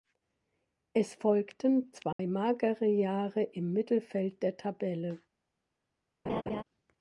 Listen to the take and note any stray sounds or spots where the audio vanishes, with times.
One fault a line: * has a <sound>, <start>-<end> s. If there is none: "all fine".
* has a dropout, 2.1-2.2 s
* has a laugh, 6.3-6.6 s